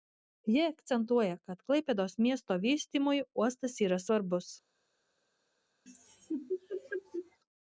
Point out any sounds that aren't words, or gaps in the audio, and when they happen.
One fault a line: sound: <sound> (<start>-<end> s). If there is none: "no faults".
sound: laugh (5.9-7.4 s)